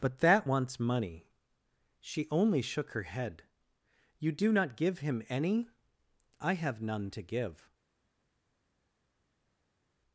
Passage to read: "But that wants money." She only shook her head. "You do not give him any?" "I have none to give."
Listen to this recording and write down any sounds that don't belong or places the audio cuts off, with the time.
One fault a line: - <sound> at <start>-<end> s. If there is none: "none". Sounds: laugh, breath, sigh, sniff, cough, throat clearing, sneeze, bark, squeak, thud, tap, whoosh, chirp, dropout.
none